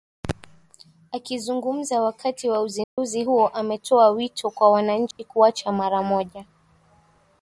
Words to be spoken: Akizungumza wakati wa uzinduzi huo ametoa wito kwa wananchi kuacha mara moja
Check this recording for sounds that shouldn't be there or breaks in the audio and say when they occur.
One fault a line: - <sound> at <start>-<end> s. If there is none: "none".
- dropout at 2.8-3.0 s
- dropout at 5.1-5.2 s